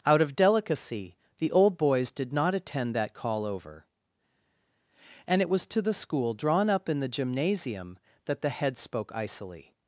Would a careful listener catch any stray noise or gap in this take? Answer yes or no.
no